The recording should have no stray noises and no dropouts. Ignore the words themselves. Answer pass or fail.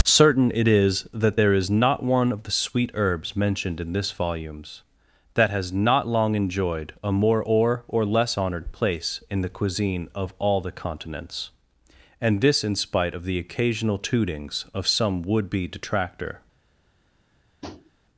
fail